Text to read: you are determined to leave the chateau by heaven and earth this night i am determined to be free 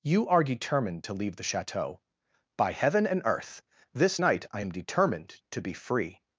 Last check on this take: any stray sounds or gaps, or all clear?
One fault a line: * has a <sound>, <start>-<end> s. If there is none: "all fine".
all fine